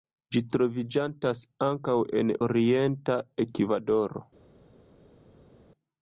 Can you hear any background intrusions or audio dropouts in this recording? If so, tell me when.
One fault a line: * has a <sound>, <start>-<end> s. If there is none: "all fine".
all fine